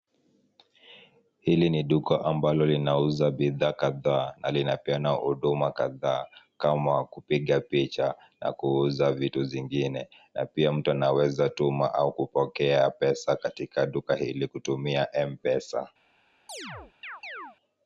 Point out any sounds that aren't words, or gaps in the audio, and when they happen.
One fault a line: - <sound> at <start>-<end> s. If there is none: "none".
- chirp at 16.5-17.6 s